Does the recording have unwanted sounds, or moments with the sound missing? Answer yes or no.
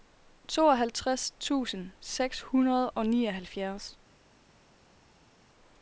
no